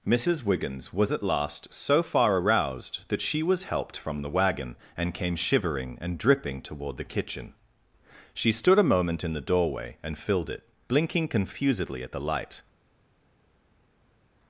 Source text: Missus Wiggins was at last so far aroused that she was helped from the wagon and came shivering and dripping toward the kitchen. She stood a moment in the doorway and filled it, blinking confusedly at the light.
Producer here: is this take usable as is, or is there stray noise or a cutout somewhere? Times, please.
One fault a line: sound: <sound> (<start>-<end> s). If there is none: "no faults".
no faults